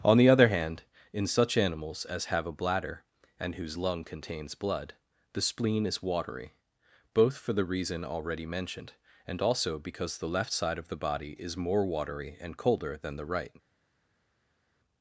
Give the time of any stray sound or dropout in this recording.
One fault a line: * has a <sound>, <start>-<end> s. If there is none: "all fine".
all fine